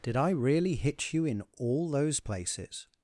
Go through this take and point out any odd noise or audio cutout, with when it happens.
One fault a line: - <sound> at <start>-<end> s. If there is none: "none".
none